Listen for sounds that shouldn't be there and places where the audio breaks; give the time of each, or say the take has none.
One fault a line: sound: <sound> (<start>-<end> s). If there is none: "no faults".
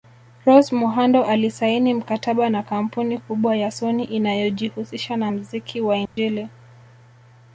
sound: dropout (6.1-6.2 s)